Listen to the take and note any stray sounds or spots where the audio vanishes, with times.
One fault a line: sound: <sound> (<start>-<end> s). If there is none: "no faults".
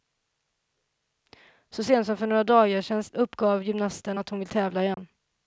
sound: dropout (4.9-5.0 s)